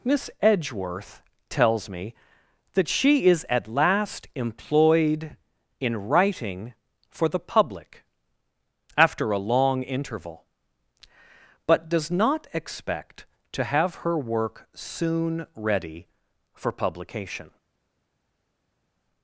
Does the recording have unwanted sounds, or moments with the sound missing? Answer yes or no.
no